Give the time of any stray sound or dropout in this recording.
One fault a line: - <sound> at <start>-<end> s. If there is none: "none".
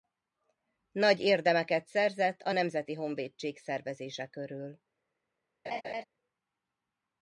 - laugh at 5.6-6.0 s